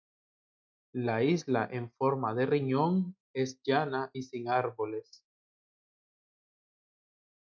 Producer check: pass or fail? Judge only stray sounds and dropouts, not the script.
pass